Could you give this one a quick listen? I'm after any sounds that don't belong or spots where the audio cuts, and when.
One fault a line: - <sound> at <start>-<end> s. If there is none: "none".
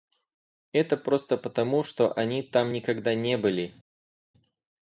none